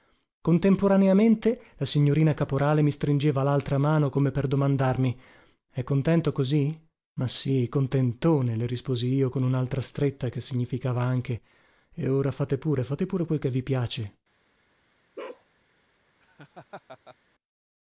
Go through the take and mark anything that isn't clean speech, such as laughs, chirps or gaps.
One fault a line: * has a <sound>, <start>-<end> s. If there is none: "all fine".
* has a bark, 15.2-15.5 s
* has a laugh, 16.2-17.2 s